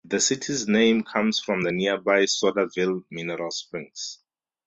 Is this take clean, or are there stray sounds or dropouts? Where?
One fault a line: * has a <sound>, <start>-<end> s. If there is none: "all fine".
all fine